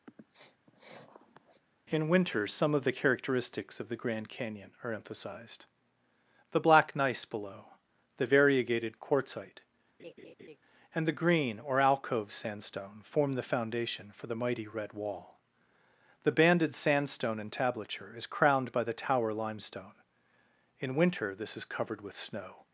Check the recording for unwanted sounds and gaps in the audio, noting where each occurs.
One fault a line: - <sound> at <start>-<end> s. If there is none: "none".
- sniff at 0.1-1.6 s
- laugh at 10.0-10.6 s